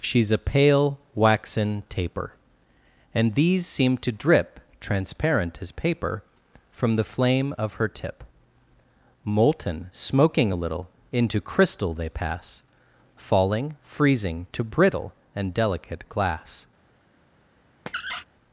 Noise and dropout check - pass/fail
fail